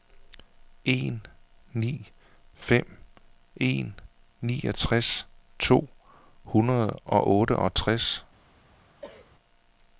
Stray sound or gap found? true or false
true